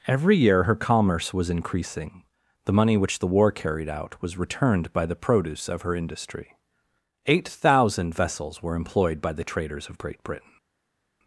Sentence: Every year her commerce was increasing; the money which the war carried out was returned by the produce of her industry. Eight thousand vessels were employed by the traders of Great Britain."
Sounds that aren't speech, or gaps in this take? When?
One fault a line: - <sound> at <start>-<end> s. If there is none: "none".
none